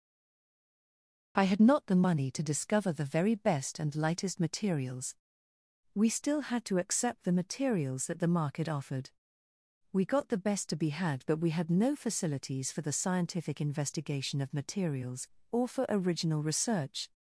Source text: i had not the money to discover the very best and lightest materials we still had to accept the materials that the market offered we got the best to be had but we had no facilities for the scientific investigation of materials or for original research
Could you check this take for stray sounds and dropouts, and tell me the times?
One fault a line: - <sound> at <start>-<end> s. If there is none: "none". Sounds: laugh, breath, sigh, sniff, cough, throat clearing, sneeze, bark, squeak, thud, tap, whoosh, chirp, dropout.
none